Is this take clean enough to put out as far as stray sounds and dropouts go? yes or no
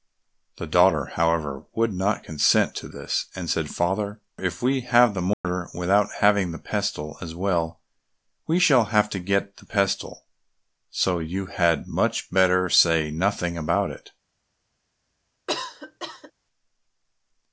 no